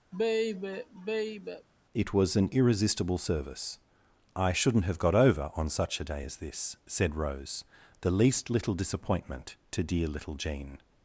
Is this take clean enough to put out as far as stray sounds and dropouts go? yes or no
no